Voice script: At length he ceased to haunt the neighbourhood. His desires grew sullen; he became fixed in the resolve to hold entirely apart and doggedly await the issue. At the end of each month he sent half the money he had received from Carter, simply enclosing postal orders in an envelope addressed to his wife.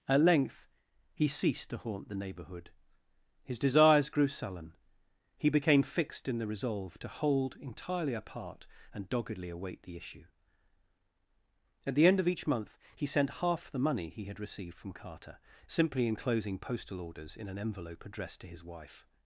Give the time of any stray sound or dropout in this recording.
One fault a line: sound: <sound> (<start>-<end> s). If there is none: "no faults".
no faults